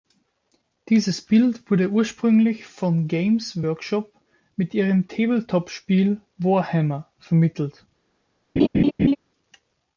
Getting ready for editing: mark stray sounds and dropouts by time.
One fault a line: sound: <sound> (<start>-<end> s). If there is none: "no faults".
sound: laugh (8.6-9.2 s)